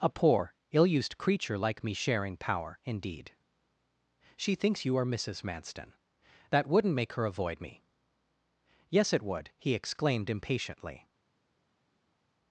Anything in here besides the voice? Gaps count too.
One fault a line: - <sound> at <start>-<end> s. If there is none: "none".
none